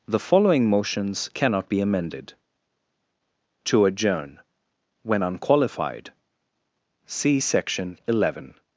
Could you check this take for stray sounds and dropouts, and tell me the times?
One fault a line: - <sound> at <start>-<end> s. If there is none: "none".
none